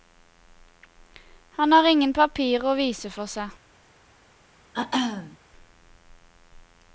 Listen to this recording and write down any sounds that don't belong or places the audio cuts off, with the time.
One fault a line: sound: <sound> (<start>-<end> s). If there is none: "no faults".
sound: throat clearing (4.7-5.4 s)